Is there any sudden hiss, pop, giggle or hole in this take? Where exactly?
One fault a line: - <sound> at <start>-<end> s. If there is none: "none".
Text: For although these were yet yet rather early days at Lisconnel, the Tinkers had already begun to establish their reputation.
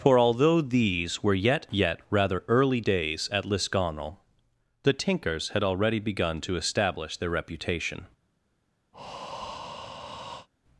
- breath at 8.9-10.5 s